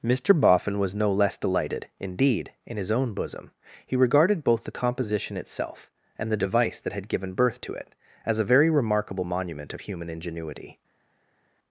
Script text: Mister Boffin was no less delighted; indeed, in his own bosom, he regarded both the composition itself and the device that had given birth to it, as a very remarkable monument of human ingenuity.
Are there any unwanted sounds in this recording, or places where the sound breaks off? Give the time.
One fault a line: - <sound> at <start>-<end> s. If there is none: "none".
none